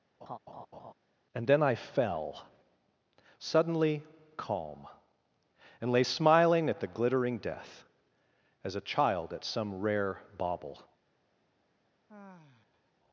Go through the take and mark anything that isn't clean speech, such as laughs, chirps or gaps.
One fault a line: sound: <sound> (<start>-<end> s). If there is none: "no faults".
sound: laugh (0.2-0.9 s)
sound: sigh (12.1-12.9 s)